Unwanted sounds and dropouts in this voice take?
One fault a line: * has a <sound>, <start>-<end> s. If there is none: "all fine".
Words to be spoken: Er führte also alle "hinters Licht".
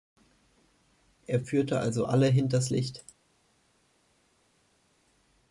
all fine